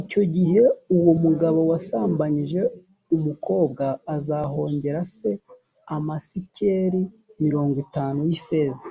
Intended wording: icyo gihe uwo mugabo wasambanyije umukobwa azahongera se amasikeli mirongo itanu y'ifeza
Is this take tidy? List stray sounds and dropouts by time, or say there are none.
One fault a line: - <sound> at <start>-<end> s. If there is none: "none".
none